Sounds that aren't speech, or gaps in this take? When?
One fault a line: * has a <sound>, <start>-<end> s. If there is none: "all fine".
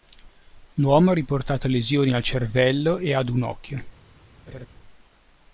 * has a laugh, 4.5-4.7 s